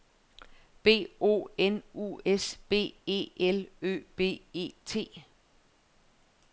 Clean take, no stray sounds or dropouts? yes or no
yes